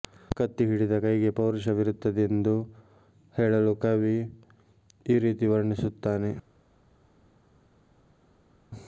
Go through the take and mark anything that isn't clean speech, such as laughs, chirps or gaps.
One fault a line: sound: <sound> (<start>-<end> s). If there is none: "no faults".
no faults